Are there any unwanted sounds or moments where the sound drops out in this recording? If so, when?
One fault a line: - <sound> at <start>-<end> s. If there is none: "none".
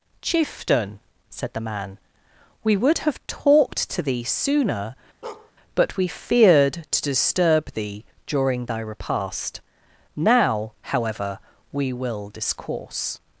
- bark at 5.2-5.5 s